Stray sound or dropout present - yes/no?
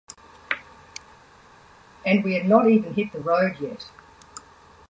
no